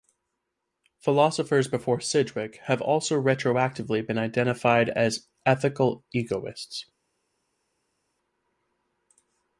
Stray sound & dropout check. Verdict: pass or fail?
pass